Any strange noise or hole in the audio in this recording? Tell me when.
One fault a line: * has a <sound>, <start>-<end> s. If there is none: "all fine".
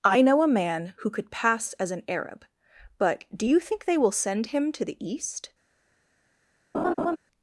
* has a laugh, 6.7-7.2 s